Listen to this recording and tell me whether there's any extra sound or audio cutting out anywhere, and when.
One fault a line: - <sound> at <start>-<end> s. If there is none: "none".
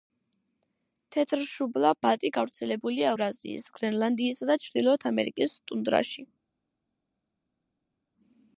none